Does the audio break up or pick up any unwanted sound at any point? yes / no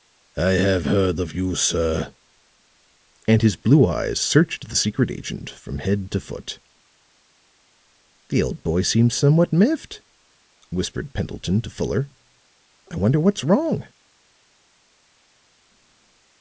no